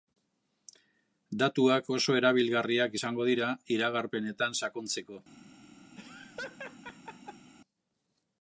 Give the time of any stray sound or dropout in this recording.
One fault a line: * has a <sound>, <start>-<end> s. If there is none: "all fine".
* has a laugh, 6.0-7.5 s